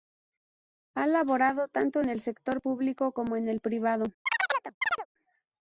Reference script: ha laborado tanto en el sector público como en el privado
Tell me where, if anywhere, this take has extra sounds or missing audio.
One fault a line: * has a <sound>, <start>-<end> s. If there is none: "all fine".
* has a chirp, 4.3-5.1 s